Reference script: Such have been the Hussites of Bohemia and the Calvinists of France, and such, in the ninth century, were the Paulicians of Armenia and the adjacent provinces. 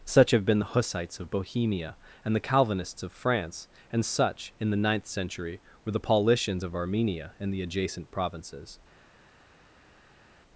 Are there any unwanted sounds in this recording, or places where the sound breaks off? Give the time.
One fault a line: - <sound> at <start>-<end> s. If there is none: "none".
none